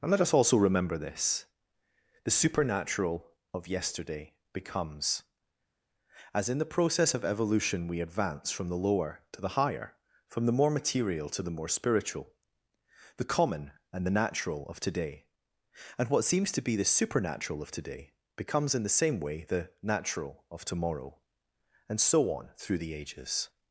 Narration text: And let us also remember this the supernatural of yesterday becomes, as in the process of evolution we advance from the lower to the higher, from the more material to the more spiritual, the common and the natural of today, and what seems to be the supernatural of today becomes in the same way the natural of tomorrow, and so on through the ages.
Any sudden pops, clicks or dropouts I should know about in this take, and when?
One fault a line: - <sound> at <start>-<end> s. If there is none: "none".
none